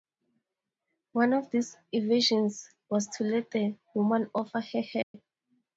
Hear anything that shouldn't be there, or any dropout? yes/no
yes